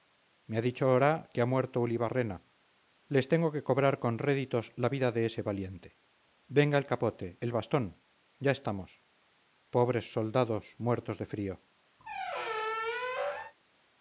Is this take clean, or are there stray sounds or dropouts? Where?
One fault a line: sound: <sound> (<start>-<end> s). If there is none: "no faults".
sound: squeak (12.0-13.5 s)